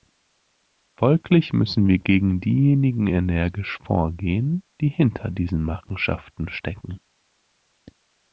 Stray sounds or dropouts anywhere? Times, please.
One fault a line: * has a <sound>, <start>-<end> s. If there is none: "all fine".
all fine